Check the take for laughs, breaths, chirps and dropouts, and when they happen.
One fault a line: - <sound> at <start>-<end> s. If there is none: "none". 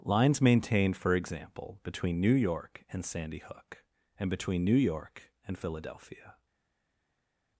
none